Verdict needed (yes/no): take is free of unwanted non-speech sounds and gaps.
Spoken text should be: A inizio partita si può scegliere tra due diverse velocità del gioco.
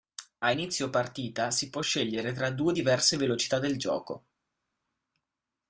yes